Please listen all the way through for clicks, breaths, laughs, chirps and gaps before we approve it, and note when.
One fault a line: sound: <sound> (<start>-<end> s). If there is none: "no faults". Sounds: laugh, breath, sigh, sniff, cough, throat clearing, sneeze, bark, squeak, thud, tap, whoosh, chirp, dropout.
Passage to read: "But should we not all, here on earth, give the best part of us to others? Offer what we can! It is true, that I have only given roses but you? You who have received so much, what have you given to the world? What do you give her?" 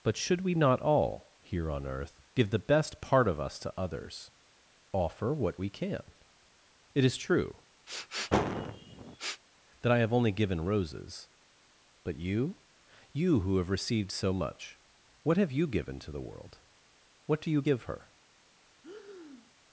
sound: sniff (7.9-9.4 s)
sound: breath (18.8-19.5 s)